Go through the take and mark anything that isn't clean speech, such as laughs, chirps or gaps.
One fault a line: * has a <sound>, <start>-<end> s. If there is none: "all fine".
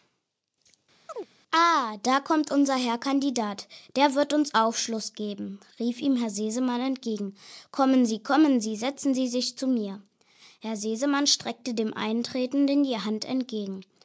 * has a chirp, 1.1-1.3 s